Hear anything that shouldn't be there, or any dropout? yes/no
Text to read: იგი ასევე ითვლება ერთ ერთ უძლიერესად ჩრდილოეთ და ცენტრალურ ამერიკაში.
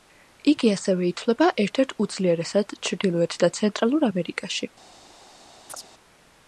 yes